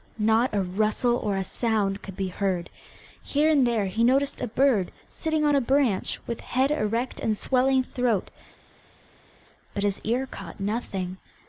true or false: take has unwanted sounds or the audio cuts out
false